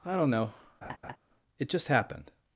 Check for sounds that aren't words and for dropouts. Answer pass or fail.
fail